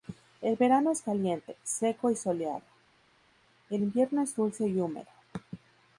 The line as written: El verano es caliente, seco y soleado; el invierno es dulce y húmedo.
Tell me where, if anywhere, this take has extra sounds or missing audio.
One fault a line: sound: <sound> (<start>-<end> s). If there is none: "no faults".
no faults